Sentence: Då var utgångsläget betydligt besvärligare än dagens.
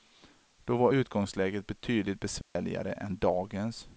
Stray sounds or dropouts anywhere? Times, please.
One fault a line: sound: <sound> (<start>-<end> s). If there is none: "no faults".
sound: dropout (2.4-2.6 s)